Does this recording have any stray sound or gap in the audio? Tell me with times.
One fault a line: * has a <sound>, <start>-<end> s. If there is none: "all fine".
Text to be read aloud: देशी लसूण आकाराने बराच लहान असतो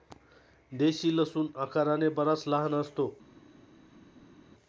all fine